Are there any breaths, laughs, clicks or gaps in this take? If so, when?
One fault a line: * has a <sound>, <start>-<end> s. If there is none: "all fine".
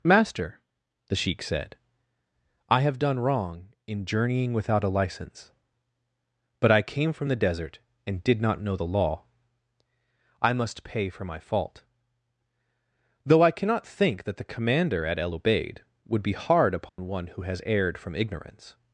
* has a dropout, 16.9-17.0 s